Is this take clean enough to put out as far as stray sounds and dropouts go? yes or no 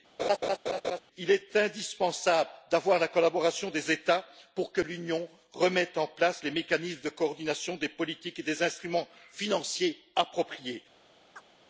no